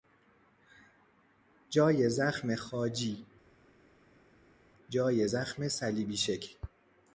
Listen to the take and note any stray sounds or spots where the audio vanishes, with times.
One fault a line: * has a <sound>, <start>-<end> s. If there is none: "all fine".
all fine